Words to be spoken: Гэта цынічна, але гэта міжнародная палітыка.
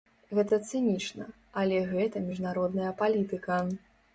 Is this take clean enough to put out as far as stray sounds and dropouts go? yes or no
yes